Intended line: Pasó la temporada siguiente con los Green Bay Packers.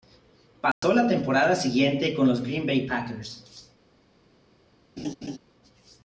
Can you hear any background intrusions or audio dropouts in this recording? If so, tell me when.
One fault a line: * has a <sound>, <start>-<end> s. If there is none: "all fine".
* has a dropout, 0.7-0.8 s
* has a laugh, 5.0-5.4 s